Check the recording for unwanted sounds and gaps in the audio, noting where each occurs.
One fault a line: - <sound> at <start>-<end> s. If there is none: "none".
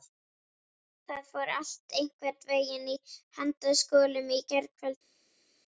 none